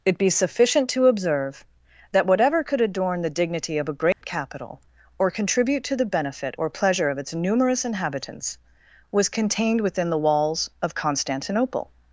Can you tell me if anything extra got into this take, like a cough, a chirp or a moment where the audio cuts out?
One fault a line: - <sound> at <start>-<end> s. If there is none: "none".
- dropout at 4.1-4.2 s